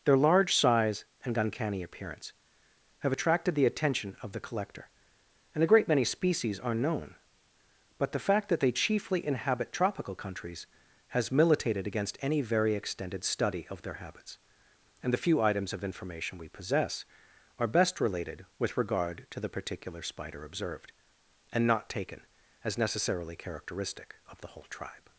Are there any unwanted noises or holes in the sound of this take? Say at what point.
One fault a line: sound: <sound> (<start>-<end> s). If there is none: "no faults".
no faults